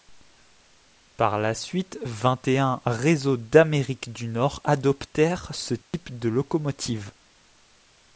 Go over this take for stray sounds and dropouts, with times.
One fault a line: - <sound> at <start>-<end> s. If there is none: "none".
- dropout at 5.8-5.9 s